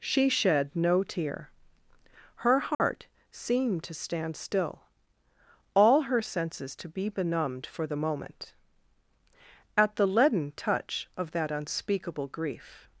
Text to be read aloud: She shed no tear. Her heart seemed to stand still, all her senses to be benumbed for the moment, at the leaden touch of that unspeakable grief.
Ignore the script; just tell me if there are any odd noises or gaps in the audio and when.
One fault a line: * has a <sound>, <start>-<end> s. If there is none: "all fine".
* has a dropout, 2.7-2.8 s